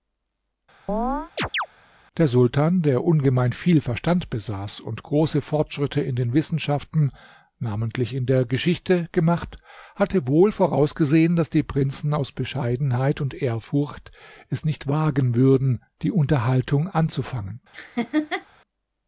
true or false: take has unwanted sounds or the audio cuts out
true